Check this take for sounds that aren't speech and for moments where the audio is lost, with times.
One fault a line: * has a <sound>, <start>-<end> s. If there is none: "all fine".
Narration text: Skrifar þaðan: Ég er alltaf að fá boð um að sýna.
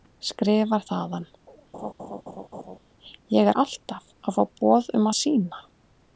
* has a laugh, 1.7-2.8 s